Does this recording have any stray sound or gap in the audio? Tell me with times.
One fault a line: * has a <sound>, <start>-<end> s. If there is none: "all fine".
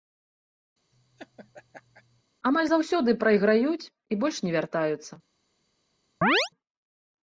* has a laugh, 0.9-2.2 s
* has a chirp, 6.2-6.5 s